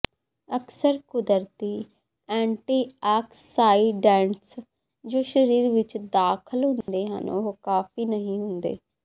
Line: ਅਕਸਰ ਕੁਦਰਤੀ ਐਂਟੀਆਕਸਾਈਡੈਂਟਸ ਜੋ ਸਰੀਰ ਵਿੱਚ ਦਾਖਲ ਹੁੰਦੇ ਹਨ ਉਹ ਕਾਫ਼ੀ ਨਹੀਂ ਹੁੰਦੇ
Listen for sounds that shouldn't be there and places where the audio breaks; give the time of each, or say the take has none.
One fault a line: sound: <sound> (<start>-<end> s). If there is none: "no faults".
sound: dropout (6.8-6.9 s)